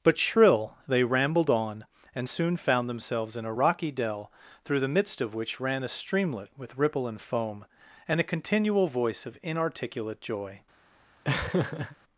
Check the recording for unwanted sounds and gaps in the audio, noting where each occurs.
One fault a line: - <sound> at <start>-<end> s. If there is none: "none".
- laugh at 11.2-12.0 s